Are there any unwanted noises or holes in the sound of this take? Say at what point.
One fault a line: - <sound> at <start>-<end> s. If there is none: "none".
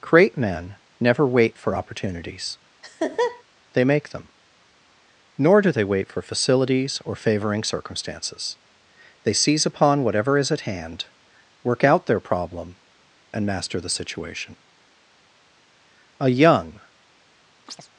- laugh at 2.8-3.4 s
- chirp at 17.7-17.9 s